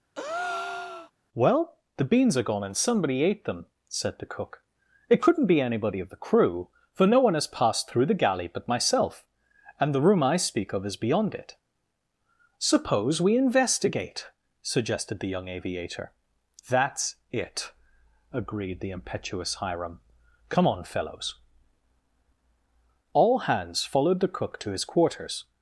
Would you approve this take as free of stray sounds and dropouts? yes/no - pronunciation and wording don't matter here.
no